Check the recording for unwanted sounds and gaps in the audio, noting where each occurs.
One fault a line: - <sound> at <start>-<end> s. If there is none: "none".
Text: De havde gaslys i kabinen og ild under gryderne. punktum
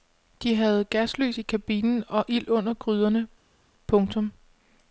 none